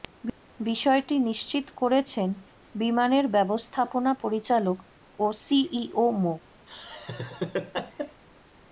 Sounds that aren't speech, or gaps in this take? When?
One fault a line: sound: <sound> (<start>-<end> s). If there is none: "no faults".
sound: laugh (6.7-8.2 s)